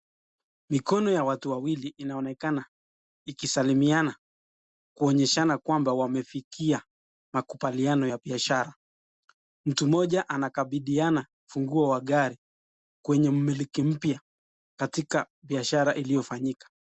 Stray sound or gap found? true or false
false